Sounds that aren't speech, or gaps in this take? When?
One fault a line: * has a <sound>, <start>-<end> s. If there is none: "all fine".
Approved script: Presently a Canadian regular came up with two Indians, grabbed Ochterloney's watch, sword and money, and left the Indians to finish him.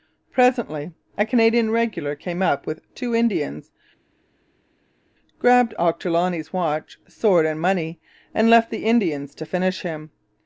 all fine